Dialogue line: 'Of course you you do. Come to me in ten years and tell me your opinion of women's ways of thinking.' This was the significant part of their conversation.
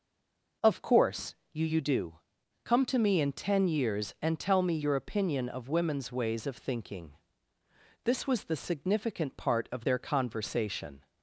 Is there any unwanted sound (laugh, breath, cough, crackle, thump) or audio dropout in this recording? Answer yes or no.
no